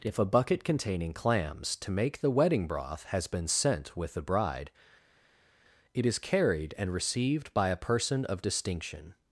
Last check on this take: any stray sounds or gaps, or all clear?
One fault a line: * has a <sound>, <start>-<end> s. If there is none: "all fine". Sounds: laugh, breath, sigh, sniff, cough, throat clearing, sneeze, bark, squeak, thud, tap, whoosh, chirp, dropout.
all fine